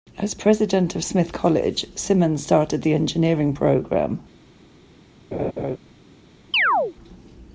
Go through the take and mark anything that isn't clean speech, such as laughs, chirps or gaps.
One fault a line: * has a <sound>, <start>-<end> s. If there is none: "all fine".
* has a laugh, 5.3-5.8 s
* has a chirp, 6.5-6.9 s